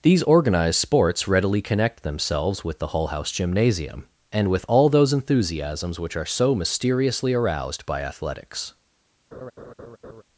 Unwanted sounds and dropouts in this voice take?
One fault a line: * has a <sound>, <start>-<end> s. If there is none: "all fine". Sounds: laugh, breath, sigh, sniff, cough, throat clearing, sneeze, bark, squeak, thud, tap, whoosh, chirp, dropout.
* has a laugh, 9.3-10.2 s